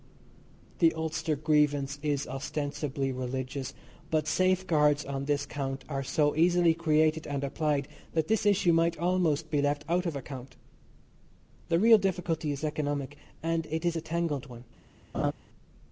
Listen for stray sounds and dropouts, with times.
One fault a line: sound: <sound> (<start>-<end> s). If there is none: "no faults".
sound: laugh (15.1-15.3 s)